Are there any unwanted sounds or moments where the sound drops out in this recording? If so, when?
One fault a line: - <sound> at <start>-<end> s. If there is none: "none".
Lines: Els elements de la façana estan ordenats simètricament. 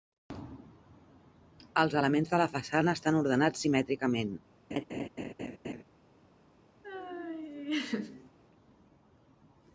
- laugh at 4.7-5.8 s
- laugh at 6.8-8.3 s